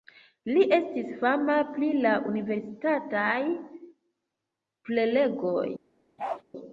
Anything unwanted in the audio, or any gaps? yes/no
yes